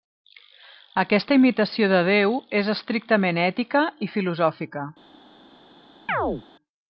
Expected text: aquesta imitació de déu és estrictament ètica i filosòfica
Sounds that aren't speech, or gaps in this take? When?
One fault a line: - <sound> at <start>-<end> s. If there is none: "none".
- chirp at 6.1-6.4 s